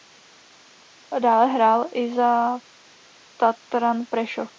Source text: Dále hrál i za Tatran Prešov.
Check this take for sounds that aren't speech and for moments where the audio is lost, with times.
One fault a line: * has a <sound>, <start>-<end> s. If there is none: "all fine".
all fine